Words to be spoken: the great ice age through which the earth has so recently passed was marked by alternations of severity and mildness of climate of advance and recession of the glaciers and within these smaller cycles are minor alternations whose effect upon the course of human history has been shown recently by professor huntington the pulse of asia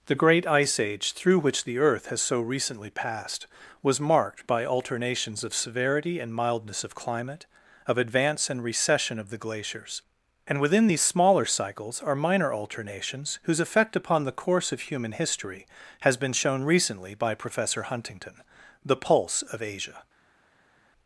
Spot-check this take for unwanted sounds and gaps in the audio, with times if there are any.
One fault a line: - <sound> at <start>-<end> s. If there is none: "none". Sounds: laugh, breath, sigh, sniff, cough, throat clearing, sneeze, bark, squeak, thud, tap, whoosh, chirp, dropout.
none